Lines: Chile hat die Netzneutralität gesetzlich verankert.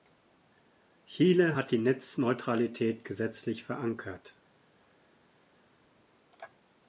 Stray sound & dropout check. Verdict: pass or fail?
pass